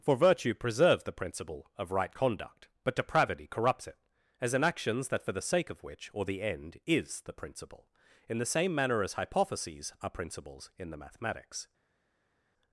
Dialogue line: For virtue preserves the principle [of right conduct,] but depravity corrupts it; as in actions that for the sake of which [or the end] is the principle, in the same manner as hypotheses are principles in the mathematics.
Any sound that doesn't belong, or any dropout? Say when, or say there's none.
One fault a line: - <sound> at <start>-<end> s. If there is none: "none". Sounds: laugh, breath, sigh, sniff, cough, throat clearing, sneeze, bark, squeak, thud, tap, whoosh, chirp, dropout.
none